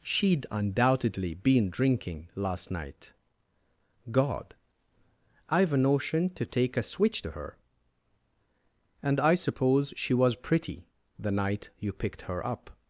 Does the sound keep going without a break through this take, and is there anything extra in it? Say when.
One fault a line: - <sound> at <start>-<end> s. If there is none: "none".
none